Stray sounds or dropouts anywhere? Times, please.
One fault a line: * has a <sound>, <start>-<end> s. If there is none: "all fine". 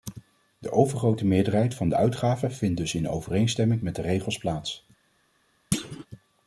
* has a thud, 5.7-6.1 s